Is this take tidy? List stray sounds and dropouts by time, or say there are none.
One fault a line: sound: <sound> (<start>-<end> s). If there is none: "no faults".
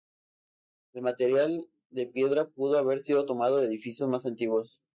no faults